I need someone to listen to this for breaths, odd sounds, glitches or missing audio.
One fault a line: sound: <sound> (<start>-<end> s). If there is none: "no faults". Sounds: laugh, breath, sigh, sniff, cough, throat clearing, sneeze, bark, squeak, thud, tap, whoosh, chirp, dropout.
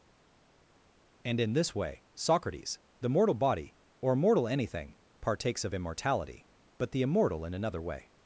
no faults